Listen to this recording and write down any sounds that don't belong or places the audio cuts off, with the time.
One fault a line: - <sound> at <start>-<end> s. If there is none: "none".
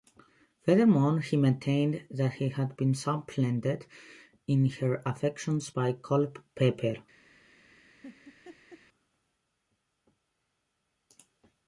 - laugh at 8.0-8.8 s